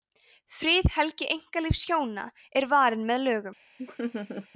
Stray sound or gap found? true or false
true